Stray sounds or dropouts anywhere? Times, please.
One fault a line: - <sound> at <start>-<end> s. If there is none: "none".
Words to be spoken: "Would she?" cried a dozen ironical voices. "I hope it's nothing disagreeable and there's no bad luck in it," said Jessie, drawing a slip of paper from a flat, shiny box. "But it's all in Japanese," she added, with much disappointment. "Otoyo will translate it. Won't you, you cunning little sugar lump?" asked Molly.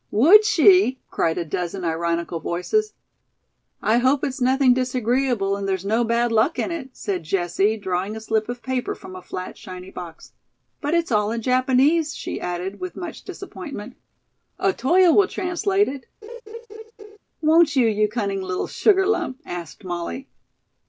- laugh at 16.2-17.2 s